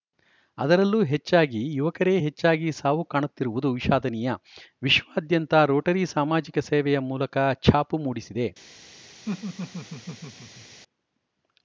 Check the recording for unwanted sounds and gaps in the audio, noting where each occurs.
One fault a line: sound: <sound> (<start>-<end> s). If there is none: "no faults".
sound: laugh (9.3-10.8 s)